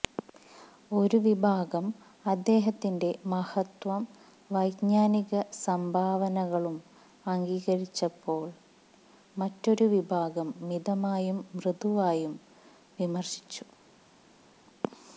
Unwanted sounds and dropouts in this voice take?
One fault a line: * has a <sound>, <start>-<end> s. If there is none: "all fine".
all fine